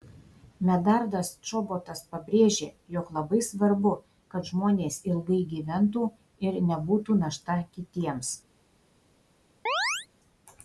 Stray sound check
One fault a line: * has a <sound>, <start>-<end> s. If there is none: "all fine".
* has a chirp, 9.7-10.1 s